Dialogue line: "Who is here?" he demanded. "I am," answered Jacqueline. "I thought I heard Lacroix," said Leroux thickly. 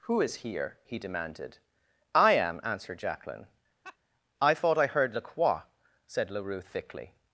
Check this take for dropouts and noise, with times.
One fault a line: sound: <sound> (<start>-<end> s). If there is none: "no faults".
sound: laugh (3.8-4.0 s)